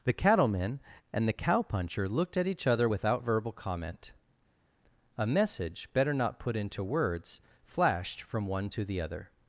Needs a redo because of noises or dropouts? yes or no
no